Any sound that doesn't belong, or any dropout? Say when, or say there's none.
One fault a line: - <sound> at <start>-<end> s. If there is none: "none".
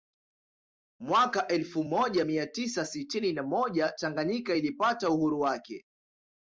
none